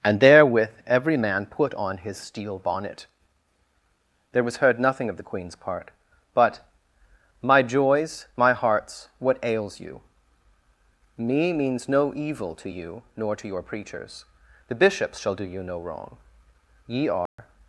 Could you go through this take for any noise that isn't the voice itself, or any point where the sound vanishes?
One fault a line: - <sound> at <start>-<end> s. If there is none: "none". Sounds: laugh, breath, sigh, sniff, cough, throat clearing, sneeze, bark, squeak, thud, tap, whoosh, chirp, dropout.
- dropout at 17.3-17.4 s